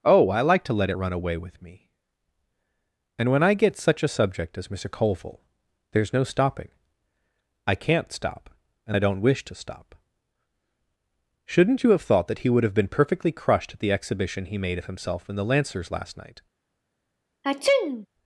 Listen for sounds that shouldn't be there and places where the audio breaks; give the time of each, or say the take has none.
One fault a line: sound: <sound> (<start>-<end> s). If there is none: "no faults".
sound: sneeze (17.4-18.1 s)